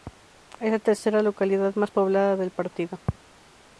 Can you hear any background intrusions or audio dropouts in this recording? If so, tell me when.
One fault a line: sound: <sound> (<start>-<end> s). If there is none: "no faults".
no faults